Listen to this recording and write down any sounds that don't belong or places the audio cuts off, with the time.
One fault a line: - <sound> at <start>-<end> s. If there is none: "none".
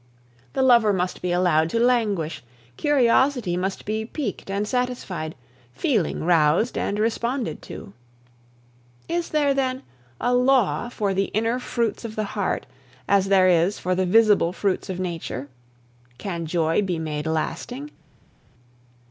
none